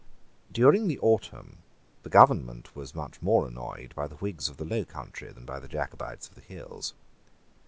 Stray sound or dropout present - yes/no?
no